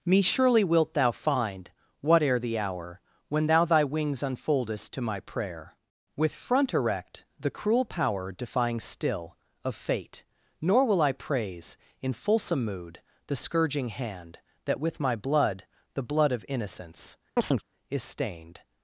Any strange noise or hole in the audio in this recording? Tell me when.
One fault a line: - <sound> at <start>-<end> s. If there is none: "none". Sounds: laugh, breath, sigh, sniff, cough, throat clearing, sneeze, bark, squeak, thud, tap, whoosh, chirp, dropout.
- chirp at 17.4-17.6 s